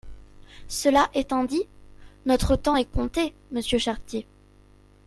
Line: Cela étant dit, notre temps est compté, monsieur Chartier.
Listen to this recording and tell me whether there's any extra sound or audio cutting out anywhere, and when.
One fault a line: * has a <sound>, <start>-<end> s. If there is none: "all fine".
all fine